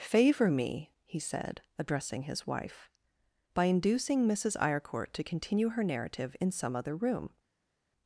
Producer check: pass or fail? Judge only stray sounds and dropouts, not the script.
pass